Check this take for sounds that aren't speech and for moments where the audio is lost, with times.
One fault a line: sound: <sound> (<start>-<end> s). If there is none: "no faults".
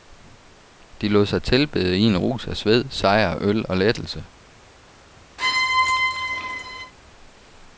sound: squeak (5.4-6.9 s)